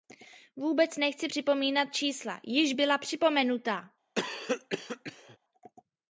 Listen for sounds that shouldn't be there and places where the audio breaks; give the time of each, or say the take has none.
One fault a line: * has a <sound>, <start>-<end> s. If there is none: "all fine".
* has a cough, 4.2-5.4 s